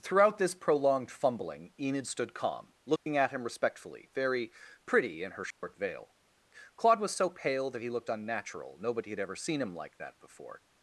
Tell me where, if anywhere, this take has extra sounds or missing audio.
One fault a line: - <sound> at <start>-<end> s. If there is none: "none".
- dropout at 3.0-3.1 s
- dropout at 5.5-5.6 s